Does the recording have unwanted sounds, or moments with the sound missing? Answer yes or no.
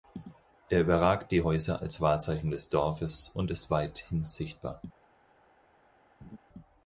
yes